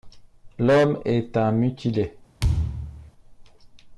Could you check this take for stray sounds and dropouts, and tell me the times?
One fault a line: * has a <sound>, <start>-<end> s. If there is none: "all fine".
* has a thud, 2.4-3.1 s